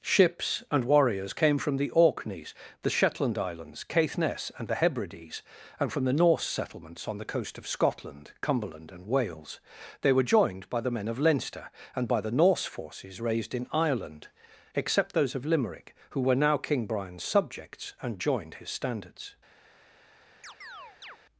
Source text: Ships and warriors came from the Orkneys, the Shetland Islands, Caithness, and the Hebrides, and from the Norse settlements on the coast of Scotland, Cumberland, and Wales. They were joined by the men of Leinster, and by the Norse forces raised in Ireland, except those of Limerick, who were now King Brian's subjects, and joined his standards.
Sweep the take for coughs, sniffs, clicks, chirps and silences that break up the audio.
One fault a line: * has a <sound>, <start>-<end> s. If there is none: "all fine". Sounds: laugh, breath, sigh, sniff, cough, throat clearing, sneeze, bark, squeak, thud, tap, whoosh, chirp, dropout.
* has a chirp, 20.4-21.2 s